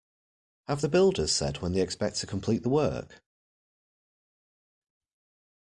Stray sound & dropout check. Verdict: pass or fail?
pass